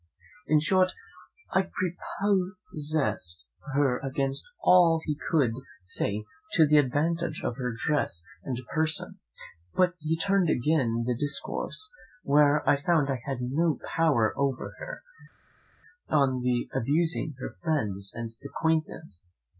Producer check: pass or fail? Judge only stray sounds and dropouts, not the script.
pass